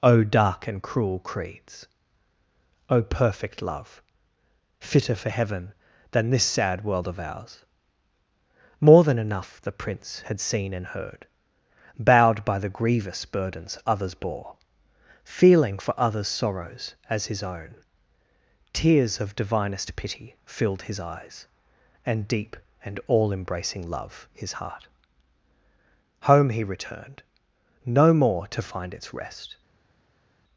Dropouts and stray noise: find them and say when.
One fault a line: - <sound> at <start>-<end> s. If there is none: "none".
none